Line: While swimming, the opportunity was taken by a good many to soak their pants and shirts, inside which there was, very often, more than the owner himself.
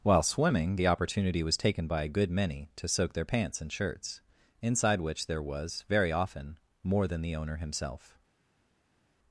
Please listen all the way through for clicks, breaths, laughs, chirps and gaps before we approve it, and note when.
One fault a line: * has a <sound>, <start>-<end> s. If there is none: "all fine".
all fine